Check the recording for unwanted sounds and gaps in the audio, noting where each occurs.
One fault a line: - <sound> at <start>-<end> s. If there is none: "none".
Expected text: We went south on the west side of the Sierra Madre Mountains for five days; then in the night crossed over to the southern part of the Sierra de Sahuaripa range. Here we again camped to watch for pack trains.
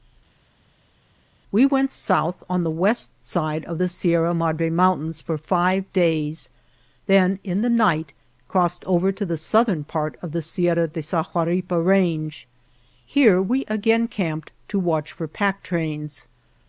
none